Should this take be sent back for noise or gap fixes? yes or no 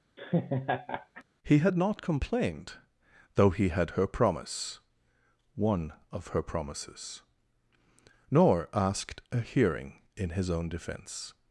yes